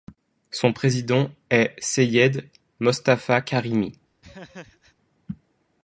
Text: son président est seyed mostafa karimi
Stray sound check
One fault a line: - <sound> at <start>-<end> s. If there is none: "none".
- laugh at 4.2-5.0 s